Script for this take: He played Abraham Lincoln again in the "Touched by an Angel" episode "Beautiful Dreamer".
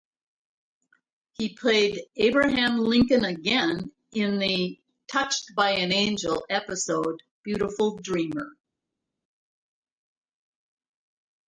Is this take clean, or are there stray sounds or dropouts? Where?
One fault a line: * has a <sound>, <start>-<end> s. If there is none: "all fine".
all fine